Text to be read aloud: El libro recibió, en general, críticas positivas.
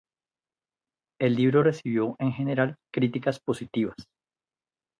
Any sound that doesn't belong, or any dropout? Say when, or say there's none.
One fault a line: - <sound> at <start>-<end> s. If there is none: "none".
none